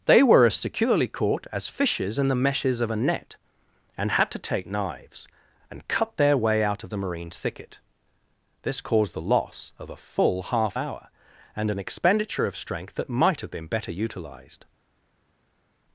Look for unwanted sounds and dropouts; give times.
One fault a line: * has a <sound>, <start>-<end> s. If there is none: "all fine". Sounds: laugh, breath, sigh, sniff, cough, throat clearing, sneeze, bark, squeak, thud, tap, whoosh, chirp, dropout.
all fine